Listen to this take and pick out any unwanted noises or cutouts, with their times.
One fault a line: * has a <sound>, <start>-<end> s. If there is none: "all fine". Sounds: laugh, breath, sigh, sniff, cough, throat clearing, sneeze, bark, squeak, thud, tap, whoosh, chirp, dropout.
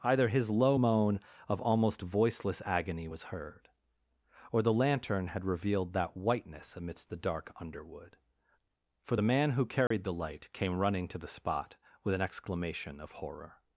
* has a dropout, 9.9-9.9 s